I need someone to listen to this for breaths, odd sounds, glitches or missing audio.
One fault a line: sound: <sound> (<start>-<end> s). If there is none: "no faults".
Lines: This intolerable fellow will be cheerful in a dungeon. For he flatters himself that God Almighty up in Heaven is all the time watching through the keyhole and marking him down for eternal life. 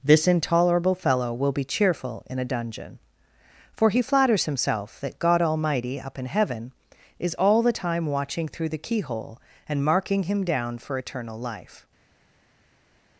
no faults